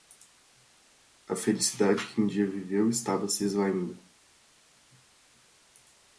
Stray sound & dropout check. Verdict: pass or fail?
pass